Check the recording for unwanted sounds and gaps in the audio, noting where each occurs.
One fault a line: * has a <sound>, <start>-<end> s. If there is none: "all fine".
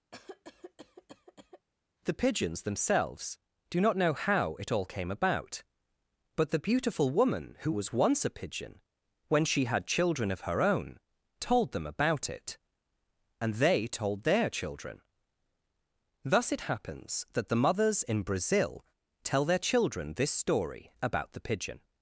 * has a cough, 0.1-1.7 s